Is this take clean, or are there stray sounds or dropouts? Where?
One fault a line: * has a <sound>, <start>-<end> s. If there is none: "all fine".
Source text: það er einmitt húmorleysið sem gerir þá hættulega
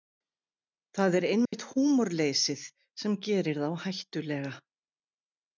* has a dropout, 1.5-1.5 s